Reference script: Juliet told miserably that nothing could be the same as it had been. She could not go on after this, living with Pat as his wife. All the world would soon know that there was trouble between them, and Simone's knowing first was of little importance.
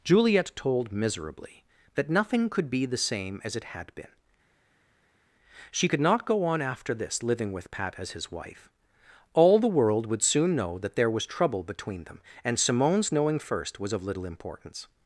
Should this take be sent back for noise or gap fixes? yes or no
no